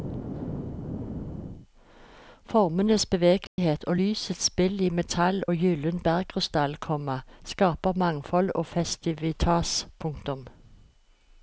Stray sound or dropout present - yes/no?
yes